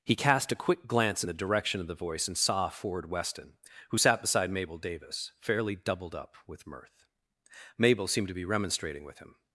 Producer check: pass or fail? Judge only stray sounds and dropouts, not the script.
pass